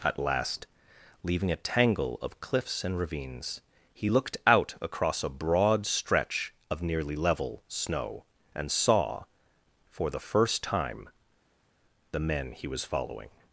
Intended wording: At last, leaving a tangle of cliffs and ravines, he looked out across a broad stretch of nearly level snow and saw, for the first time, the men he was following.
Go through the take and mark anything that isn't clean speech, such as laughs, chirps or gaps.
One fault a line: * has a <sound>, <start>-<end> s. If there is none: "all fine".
all fine